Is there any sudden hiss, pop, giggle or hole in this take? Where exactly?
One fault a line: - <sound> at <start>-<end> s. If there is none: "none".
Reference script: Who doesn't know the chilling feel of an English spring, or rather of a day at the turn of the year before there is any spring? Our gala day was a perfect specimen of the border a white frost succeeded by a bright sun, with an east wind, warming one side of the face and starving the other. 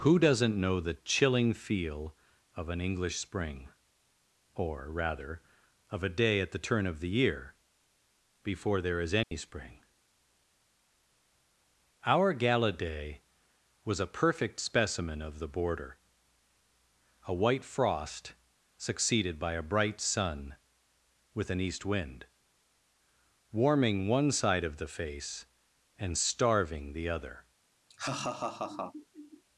- dropout at 9.2-9.3 s
- laugh at 27.9-29.4 s